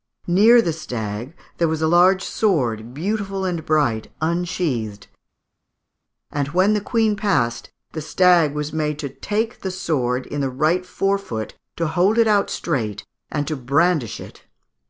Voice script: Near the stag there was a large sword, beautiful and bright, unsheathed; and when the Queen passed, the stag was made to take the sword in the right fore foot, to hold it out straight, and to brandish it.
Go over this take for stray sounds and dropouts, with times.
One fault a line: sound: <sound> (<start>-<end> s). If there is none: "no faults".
no faults